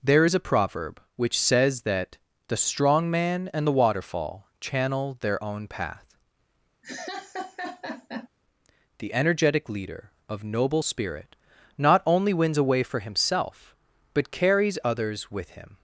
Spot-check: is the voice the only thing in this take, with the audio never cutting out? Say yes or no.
no